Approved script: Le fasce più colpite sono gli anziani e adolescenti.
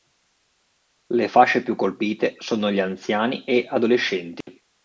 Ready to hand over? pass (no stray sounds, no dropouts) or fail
fail